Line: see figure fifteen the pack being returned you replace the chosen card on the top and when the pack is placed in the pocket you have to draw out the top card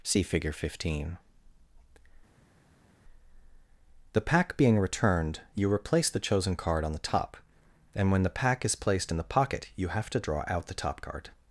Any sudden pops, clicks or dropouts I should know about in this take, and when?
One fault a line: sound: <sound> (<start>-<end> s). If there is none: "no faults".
no faults